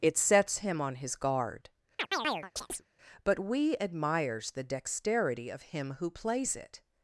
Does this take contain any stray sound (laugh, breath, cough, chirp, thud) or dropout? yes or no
yes